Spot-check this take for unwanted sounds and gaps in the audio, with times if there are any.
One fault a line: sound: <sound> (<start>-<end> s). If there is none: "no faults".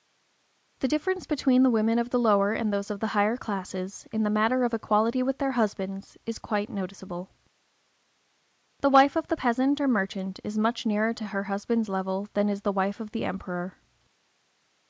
no faults